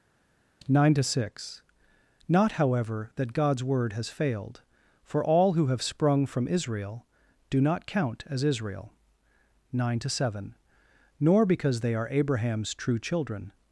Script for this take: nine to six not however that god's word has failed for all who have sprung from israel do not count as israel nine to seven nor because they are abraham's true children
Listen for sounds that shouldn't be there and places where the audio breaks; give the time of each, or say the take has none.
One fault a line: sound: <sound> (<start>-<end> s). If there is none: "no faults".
no faults